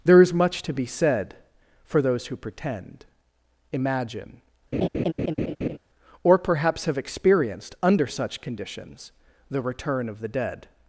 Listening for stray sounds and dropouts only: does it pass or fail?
fail